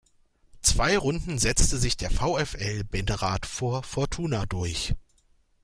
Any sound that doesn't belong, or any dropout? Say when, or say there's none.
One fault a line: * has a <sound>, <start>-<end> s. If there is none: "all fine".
all fine